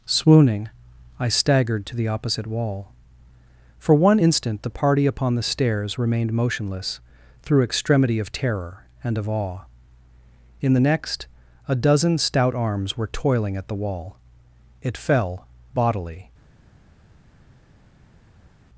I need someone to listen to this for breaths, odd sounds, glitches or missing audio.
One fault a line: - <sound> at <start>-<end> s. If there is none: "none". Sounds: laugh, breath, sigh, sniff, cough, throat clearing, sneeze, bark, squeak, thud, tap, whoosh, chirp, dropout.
none